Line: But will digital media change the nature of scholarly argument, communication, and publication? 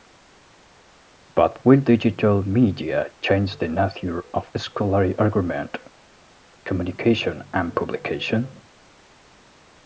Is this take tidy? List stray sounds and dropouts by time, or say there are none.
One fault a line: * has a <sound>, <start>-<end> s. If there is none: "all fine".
all fine